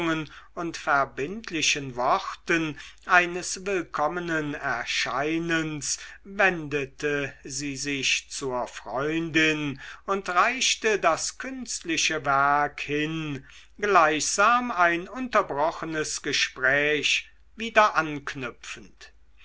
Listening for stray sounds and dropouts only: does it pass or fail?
pass